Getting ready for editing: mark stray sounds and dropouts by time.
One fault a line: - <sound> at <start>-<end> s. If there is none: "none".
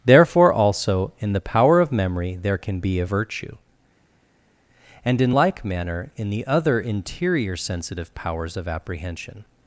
none